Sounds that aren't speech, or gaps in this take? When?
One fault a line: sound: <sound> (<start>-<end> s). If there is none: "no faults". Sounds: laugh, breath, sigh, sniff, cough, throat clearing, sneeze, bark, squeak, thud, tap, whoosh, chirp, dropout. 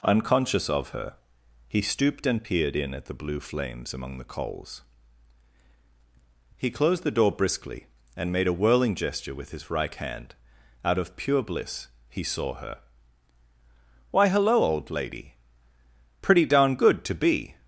no faults